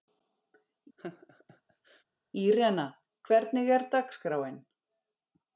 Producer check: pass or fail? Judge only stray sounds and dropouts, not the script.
fail